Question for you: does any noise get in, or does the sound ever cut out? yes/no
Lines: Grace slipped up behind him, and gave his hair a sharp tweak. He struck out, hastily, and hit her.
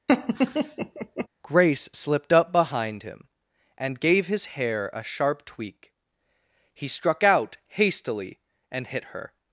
yes